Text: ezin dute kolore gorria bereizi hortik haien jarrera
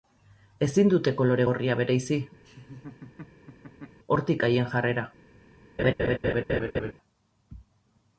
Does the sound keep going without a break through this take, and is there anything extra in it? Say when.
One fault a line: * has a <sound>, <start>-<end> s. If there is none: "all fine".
* has a laugh, 2.4-4.0 s
* has a laugh, 5.8-6.9 s